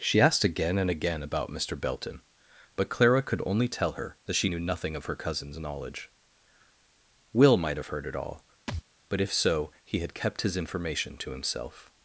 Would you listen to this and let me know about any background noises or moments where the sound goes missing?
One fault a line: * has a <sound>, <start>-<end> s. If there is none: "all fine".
* has a thud, 8.7-8.8 s